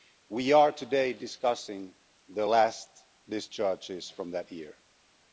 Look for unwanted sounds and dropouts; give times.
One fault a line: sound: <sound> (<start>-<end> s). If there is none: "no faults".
no faults